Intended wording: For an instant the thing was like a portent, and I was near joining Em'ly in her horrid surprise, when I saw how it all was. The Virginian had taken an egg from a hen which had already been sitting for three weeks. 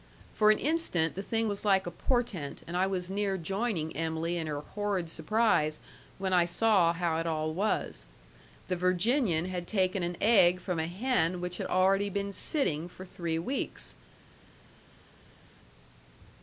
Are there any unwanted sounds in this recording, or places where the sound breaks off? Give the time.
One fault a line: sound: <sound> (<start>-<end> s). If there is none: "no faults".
no faults